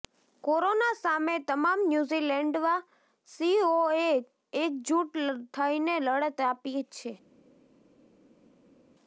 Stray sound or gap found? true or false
false